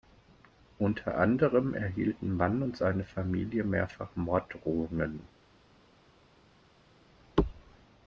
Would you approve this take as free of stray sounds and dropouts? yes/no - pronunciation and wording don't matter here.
yes